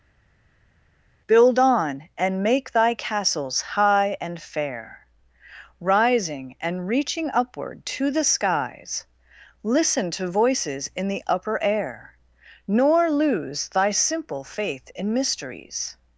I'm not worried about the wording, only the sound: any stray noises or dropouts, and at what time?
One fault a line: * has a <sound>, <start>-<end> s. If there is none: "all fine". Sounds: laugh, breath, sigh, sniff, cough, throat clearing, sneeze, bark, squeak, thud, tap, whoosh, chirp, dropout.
all fine